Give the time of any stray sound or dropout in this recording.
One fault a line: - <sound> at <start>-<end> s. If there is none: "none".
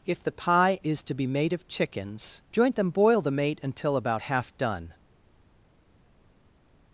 none